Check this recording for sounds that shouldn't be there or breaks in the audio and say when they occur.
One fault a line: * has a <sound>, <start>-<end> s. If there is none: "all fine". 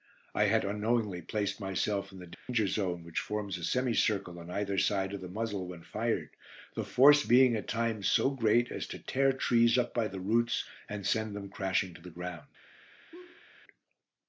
* has a dropout, 2.3-2.5 s
* has a laugh, 13.1-13.5 s